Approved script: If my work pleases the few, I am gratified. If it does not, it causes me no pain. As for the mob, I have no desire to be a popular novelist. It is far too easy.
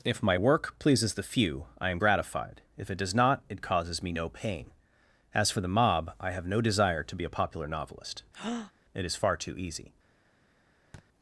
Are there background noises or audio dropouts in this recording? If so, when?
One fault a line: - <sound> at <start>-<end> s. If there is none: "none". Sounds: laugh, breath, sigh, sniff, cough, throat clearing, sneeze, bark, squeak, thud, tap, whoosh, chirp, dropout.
- breath at 8.3-8.7 s
- thud at 10.9-11.1 s